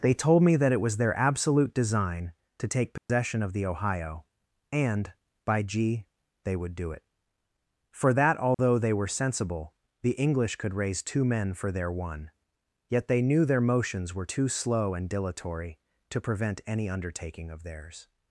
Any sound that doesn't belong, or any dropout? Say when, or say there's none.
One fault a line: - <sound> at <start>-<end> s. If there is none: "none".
- dropout at 3.0-3.1 s
- dropout at 8.5-8.6 s